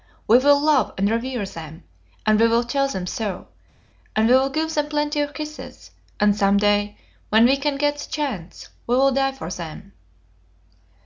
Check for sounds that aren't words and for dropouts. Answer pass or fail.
pass